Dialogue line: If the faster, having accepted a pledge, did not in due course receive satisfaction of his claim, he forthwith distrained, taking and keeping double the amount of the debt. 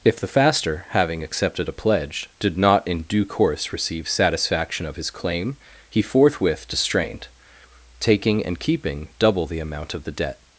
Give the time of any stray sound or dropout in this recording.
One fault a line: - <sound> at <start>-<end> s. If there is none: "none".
none